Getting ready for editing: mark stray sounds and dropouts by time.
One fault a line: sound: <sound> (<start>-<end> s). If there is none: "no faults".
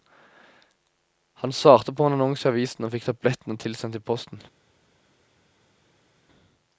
no faults